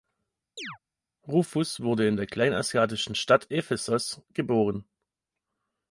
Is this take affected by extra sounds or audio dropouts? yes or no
yes